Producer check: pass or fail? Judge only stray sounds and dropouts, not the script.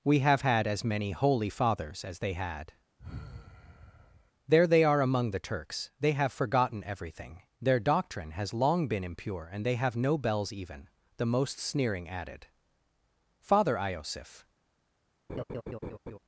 fail